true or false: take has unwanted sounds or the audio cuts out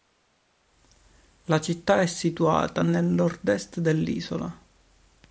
false